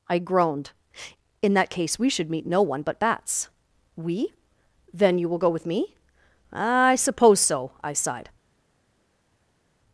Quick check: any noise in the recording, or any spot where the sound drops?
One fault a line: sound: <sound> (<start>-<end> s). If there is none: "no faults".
no faults